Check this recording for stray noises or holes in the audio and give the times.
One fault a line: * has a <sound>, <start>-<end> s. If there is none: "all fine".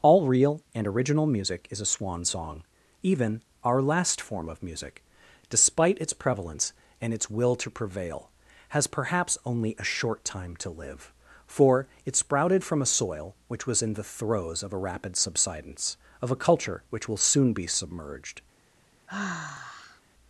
* has a sigh, 19.1-20.0 s